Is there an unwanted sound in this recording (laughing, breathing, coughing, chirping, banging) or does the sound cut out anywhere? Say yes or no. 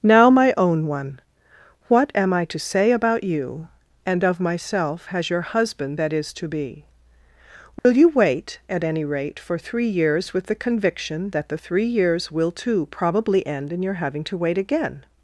yes